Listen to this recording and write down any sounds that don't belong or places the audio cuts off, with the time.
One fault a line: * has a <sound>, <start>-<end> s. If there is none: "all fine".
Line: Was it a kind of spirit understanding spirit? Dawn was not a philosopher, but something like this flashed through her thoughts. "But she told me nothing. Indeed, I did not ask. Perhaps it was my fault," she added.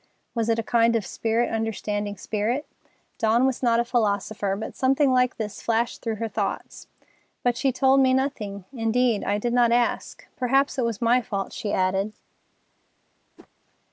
* has a whoosh, 13.4-13.5 s